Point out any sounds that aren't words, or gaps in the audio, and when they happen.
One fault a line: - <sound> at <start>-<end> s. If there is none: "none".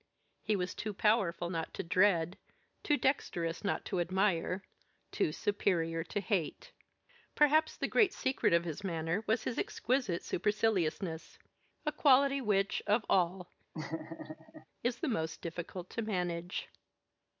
- laugh at 13.7-14.7 s